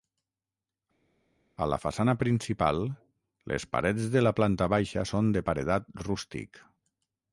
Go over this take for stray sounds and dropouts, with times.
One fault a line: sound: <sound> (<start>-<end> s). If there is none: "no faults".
no faults